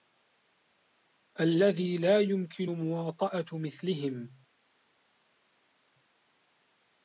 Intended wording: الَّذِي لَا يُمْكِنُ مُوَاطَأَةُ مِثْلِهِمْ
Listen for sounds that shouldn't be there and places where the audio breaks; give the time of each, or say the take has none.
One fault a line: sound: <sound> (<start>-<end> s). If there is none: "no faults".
no faults